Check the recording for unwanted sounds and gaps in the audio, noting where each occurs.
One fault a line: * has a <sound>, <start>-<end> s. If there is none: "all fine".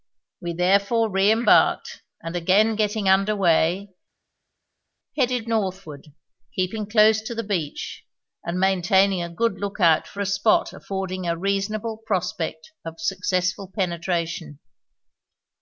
all fine